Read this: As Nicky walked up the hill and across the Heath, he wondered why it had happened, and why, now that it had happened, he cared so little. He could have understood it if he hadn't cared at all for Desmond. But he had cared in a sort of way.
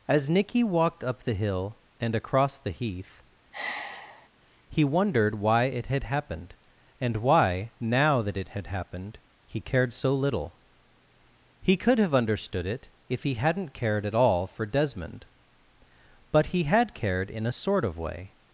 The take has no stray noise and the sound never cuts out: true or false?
false